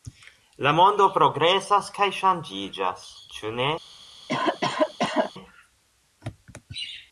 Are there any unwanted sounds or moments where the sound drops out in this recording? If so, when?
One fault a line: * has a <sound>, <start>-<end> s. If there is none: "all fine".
* has a cough, 4.3-5.3 s